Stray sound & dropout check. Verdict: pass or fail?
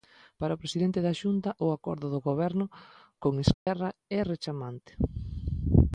fail